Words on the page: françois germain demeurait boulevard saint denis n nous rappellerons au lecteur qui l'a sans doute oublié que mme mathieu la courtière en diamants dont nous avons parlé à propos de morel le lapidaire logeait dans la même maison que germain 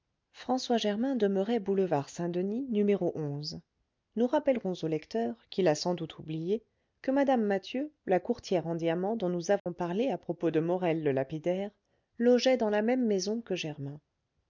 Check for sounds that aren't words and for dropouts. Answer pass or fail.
fail